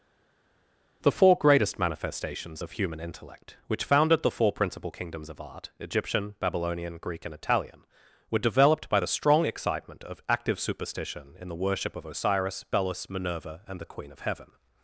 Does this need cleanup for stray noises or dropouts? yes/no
no